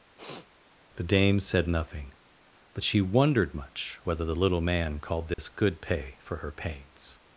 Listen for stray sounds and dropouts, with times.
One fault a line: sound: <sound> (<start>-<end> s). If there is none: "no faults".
sound: sniff (0.1-0.5 s)
sound: dropout (5.3-5.4 s)